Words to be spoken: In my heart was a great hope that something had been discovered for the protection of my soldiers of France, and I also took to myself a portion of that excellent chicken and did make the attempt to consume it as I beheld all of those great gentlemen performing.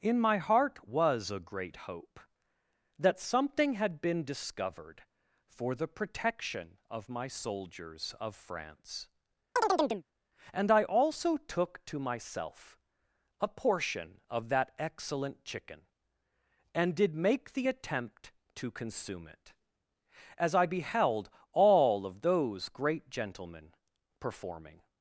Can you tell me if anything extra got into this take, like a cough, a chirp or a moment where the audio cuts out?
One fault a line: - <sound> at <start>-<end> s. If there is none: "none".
- chirp at 9.6-10.0 s